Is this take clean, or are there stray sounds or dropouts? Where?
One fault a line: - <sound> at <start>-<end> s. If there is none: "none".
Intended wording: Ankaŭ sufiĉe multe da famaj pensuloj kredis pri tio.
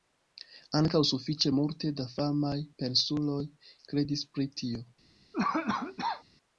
- cough at 5.3-6.2 s